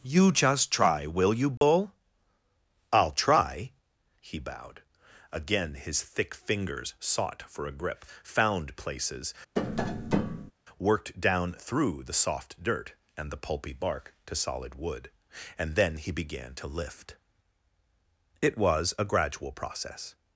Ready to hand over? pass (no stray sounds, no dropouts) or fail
fail